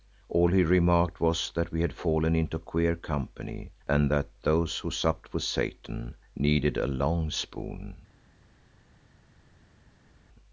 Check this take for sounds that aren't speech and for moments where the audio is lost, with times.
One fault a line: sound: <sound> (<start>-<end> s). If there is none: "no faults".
no faults